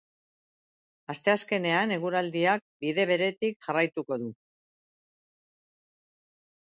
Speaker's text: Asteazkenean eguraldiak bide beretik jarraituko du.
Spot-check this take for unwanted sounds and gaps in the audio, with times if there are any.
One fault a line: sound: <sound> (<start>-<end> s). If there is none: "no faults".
no faults